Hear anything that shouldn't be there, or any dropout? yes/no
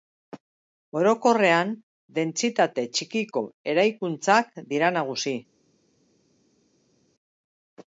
no